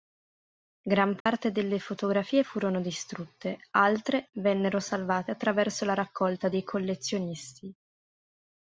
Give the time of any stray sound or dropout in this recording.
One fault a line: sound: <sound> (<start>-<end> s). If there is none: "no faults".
sound: dropout (1.2-1.3 s)